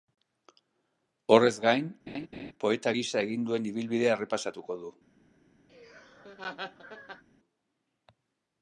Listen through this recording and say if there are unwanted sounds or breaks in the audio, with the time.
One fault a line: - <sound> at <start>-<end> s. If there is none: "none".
- laugh at 2.1-2.5 s
- laugh at 5.7-7.2 s